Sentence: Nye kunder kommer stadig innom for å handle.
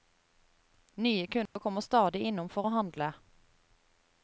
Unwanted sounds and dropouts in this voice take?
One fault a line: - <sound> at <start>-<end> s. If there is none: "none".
- dropout at 1.5-1.6 s